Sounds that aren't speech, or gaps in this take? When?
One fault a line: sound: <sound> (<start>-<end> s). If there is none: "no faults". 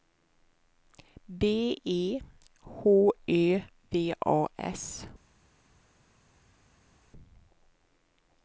no faults